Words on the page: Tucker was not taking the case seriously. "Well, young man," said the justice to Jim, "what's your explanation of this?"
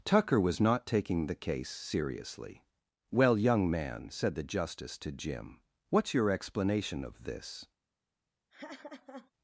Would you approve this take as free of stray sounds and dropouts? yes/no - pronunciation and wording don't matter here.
no